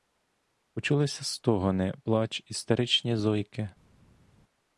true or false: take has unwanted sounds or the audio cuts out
false